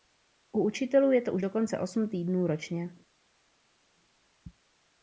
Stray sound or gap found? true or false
false